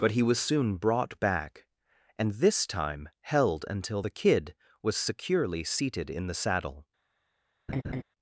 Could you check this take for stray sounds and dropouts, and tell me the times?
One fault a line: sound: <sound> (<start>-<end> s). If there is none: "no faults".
sound: laugh (7.7-8.0 s)